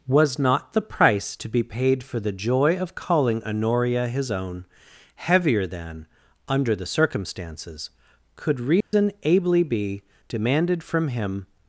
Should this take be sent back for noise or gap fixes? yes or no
yes